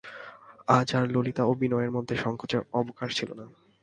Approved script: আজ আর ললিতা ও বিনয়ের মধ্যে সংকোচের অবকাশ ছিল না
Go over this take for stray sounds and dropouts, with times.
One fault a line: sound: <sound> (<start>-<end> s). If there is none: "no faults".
no faults